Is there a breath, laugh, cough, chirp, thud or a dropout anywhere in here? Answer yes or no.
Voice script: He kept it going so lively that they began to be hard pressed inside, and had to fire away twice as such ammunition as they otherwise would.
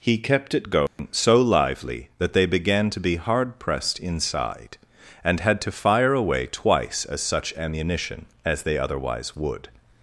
yes